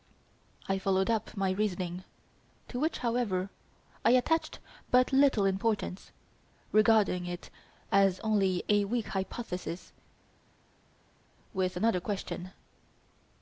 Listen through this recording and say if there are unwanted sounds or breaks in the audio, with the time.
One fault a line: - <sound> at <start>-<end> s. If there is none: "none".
none